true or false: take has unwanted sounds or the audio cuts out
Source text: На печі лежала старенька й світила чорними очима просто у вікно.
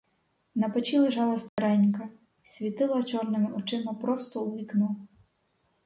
true